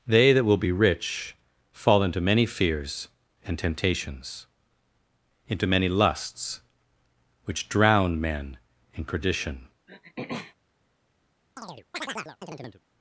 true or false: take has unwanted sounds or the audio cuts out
true